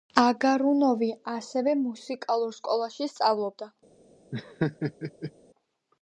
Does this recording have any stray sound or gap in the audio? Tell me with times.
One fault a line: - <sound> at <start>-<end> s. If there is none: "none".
- laugh at 4.3-5.3 s